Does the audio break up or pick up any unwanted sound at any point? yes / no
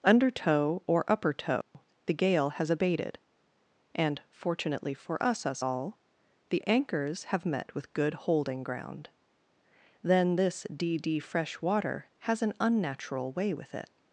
yes